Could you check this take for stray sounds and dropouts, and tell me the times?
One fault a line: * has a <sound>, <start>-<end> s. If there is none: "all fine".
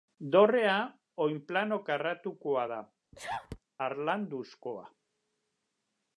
* has a sneeze, 3.1-3.6 s